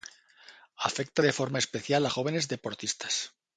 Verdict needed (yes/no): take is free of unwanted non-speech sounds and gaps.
yes